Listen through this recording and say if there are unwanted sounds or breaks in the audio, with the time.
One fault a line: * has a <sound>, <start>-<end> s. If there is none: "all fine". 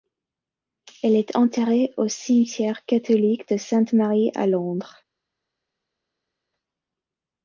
all fine